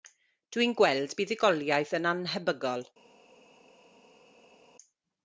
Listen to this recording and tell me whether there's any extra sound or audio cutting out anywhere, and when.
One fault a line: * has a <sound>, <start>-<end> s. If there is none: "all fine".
all fine